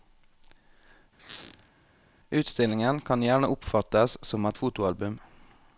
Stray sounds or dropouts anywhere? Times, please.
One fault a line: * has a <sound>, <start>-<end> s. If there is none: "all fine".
* has a squeak, 1.2-1.7 s